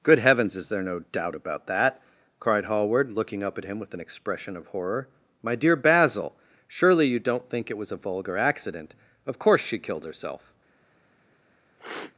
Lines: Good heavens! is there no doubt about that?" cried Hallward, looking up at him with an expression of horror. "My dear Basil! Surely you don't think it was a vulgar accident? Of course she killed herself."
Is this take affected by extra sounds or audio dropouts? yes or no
yes